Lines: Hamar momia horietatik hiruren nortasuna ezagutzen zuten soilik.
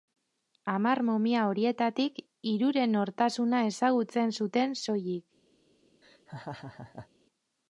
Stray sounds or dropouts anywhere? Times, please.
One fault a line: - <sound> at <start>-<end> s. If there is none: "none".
- laugh at 6.0-7.1 s